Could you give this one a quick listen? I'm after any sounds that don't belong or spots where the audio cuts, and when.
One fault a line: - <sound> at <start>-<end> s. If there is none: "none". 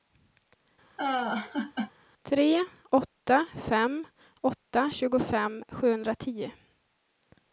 - laugh at 1.0-1.9 s